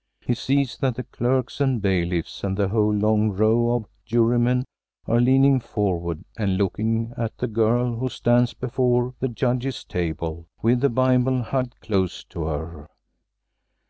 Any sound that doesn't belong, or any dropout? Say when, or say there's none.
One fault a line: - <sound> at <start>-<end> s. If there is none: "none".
none